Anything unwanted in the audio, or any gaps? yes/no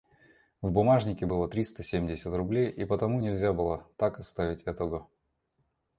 no